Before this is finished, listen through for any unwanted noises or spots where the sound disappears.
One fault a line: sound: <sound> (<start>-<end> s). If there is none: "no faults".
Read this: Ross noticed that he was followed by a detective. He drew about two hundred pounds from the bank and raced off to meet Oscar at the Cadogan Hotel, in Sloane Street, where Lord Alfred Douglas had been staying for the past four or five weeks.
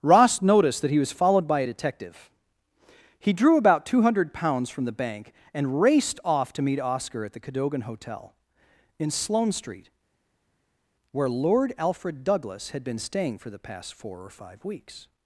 no faults